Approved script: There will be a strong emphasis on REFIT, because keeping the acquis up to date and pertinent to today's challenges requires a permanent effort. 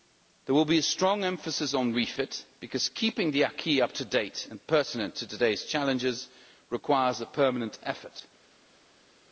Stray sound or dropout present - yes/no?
no